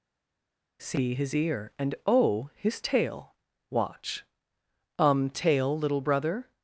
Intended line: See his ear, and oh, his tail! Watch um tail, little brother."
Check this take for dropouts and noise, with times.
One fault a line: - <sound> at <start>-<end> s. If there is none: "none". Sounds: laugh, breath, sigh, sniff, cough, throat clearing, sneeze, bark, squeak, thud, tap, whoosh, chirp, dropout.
none